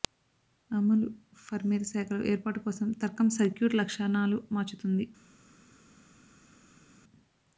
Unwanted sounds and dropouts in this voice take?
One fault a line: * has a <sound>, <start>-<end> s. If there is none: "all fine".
all fine